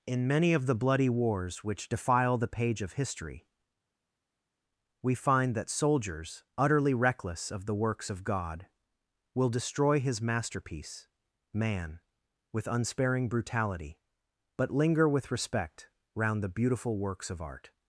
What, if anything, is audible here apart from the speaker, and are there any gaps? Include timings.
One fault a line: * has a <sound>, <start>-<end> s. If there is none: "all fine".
all fine